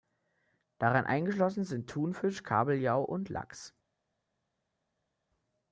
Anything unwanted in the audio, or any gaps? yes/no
no